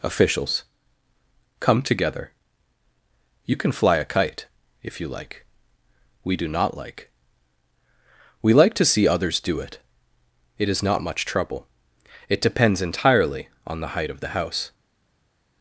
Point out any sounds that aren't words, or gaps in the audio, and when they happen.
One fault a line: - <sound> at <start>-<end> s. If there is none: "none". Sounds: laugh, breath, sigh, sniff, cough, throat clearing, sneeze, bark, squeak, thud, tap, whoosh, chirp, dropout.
none